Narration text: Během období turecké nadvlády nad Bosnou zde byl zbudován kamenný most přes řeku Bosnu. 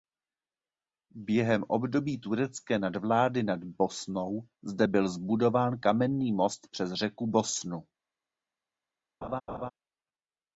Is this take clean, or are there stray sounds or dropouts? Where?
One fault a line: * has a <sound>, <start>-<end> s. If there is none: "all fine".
* has a laugh, 9.2-9.7 s